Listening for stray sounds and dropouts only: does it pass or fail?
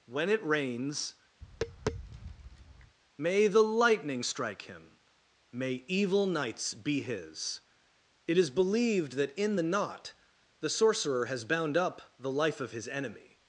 fail